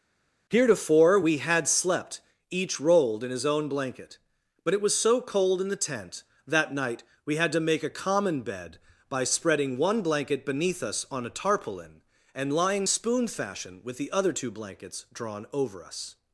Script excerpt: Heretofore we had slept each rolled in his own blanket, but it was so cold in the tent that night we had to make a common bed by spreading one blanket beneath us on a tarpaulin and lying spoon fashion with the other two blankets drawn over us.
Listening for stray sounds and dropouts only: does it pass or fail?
pass